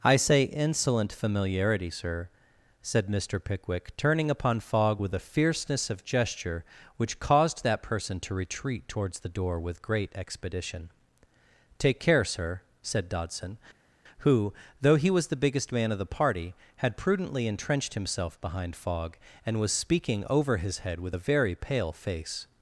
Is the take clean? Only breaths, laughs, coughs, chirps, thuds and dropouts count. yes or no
yes